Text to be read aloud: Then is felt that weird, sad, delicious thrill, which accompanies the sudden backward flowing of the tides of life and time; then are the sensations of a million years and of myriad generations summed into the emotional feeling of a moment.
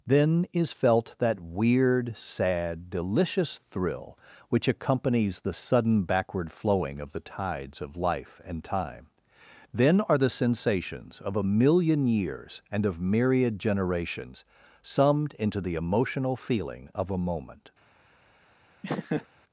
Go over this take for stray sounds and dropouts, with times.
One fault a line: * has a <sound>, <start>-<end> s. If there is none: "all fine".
* has a laugh, 18.8-19.3 s